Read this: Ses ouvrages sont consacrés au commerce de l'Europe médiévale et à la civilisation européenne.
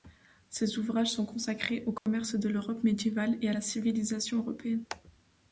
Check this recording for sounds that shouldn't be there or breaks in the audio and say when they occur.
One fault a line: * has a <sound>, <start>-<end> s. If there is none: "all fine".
* has a dropout, 2.0-2.1 s